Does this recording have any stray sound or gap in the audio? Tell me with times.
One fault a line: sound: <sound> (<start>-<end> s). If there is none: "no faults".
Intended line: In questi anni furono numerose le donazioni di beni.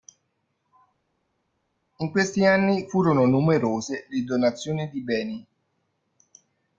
no faults